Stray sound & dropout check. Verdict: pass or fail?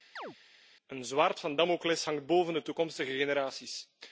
fail